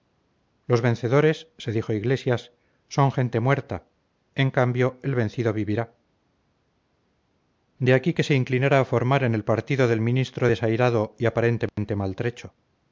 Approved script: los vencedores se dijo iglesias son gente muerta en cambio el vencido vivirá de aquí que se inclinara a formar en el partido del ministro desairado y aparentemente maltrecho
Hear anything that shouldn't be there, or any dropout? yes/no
yes